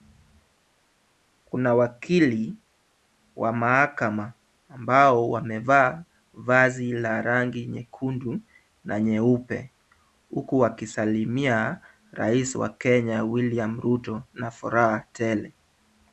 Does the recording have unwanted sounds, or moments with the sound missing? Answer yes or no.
no